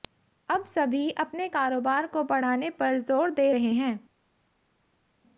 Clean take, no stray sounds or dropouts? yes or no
yes